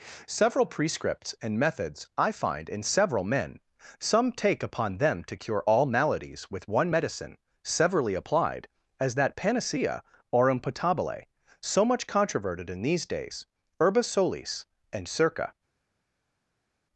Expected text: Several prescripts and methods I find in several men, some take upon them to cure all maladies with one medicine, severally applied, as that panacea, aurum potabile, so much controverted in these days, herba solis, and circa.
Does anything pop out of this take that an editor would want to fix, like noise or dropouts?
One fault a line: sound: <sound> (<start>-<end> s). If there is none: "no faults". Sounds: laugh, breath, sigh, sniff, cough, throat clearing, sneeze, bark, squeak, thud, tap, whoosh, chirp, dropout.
no faults